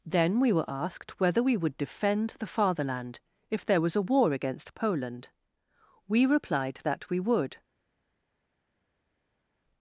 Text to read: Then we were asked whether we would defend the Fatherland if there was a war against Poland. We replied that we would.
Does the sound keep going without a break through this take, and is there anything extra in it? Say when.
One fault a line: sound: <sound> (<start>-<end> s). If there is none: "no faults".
no faults